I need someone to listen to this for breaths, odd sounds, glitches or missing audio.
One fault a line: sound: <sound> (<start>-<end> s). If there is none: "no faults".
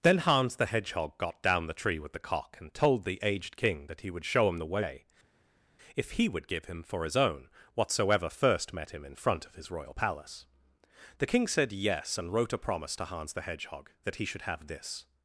no faults